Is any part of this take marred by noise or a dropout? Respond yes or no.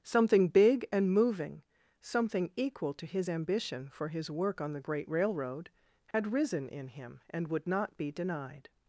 yes